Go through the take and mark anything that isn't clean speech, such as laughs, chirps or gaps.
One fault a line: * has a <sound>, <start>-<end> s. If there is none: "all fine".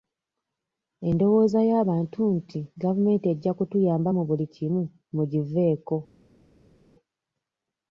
all fine